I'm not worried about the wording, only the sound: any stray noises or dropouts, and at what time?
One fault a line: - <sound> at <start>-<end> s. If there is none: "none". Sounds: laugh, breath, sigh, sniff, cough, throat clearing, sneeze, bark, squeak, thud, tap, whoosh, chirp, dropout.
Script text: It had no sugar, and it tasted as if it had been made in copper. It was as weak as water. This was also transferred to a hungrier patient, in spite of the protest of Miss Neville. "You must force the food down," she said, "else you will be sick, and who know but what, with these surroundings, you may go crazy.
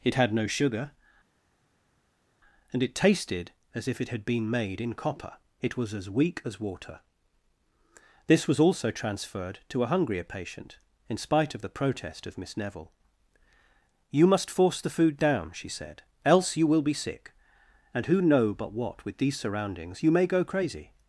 none